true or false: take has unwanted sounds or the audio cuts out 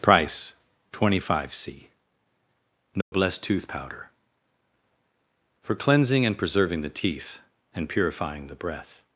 true